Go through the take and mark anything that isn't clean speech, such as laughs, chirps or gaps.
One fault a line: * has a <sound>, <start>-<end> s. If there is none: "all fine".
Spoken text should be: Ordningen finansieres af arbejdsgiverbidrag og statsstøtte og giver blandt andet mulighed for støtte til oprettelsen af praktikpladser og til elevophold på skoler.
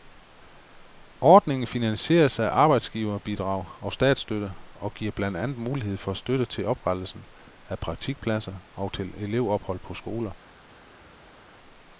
all fine